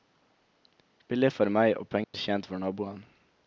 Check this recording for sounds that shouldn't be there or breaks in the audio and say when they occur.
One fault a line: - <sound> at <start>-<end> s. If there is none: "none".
- dropout at 2.0-2.1 s